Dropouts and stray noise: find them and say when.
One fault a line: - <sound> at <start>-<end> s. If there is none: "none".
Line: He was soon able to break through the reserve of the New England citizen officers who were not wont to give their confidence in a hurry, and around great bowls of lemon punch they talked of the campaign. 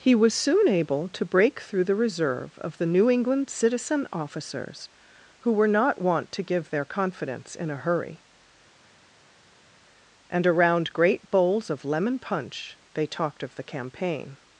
none